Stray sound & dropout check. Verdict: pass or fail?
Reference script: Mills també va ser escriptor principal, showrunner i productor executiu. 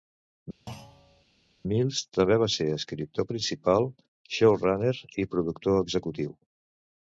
fail